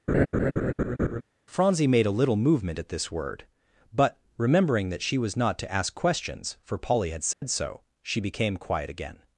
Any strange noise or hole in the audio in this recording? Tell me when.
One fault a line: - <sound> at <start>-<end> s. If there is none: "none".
- laugh at 0.1-1.2 s
- dropout at 7.3-7.4 s